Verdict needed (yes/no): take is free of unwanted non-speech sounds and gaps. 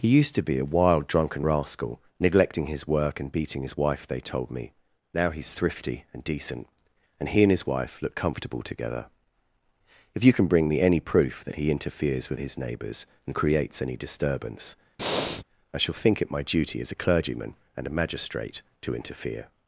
no